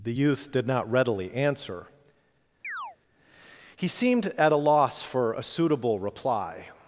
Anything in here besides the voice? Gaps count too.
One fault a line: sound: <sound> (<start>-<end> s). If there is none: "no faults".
sound: chirp (2.6-3.0 s)